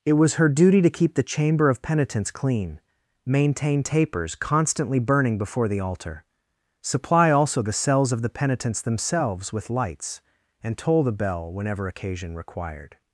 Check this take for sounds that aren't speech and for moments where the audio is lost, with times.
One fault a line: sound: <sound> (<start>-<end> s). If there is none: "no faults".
no faults